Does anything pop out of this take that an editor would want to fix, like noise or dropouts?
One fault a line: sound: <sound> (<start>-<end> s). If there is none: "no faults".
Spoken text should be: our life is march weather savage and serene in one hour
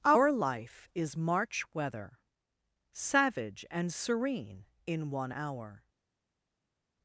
no faults